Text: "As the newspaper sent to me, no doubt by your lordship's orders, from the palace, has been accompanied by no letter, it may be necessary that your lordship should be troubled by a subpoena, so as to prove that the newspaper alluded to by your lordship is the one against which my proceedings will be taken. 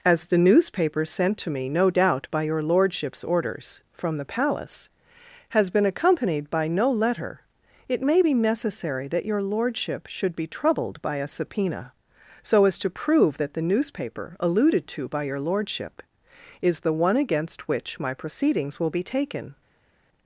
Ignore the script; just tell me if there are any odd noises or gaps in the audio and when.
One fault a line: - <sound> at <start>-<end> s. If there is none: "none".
none